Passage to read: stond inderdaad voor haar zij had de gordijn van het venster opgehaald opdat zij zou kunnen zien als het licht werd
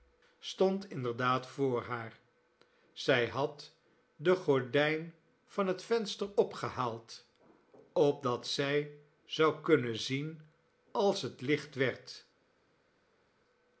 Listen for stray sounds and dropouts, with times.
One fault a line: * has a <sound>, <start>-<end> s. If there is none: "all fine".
all fine